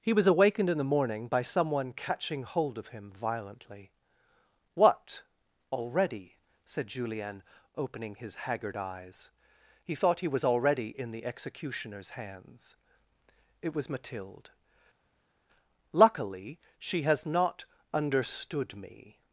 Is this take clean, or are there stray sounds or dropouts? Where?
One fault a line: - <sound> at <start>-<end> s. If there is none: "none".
none